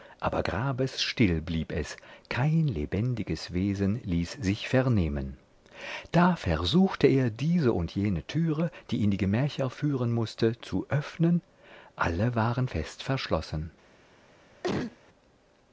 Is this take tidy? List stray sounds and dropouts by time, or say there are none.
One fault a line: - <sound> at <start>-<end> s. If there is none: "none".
- cough at 14.6-15.0 s